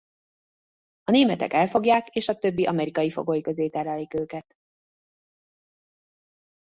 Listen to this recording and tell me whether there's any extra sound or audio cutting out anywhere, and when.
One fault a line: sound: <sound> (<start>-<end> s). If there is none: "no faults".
no faults